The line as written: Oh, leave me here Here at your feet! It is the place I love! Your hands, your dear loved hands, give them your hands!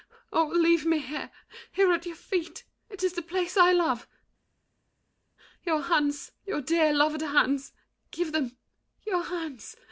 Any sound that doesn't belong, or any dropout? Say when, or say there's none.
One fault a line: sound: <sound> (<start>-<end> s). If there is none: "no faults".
no faults